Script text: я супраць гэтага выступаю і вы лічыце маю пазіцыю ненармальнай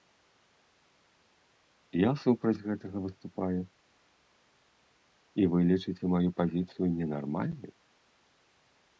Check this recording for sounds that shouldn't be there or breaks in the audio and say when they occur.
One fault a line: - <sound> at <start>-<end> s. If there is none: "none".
none